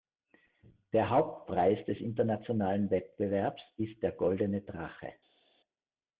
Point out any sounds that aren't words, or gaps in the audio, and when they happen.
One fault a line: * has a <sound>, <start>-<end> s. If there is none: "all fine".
all fine